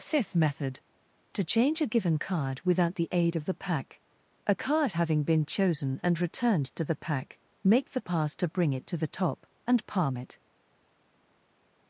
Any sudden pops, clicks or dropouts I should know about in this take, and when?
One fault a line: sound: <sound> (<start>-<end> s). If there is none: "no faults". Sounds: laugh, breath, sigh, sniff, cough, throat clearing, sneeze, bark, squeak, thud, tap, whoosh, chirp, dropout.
no faults